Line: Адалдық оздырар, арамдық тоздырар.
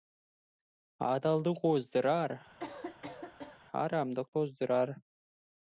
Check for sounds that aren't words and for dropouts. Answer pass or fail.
fail